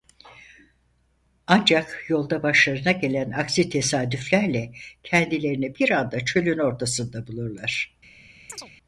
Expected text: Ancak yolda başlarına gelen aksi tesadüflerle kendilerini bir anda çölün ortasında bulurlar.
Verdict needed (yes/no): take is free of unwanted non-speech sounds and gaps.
no